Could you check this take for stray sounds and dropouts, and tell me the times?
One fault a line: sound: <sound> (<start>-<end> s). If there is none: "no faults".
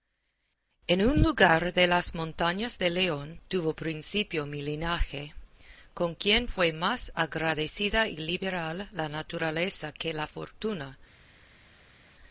no faults